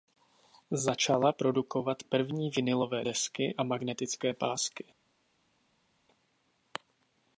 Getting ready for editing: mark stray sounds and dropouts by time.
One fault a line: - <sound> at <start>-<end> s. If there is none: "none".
none